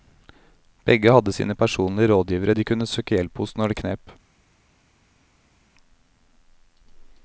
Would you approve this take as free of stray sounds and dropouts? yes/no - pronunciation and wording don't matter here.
yes